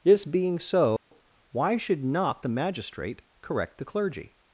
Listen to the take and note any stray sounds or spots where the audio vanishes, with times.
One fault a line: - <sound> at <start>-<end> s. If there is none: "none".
- dropout at 1.0-1.1 s